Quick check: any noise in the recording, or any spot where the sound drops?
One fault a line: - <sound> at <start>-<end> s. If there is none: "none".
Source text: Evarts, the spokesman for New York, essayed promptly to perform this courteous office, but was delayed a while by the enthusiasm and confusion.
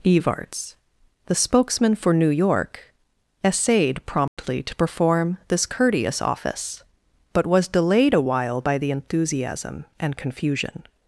- dropout at 4.3-4.4 s